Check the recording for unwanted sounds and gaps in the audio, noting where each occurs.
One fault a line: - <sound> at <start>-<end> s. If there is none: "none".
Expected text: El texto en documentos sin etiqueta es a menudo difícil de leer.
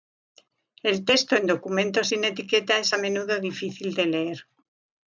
none